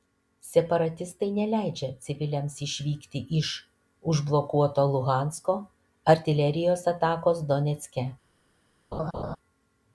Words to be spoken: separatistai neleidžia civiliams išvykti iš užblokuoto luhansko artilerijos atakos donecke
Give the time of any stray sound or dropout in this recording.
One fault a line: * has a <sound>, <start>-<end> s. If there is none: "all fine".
* has a laugh, 8.9-9.4 s